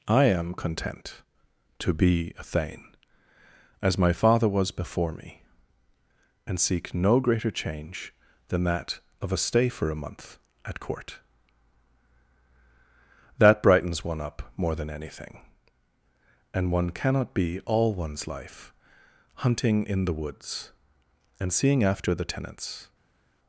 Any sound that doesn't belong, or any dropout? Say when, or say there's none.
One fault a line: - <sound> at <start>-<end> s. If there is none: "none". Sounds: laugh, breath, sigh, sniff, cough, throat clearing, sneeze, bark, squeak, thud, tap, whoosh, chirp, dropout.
none